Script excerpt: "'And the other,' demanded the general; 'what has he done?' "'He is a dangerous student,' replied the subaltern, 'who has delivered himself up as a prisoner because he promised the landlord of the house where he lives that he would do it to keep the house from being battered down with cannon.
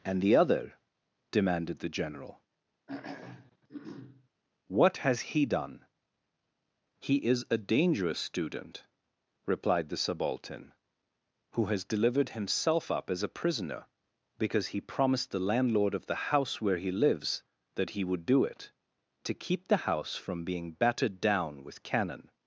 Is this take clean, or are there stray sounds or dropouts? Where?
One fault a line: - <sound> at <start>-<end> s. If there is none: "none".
- throat clearing at 2.9-4.3 s